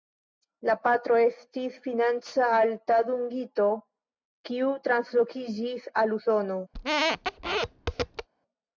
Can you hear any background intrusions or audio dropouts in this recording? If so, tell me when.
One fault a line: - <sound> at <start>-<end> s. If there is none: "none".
- squeak at 6.7-8.3 s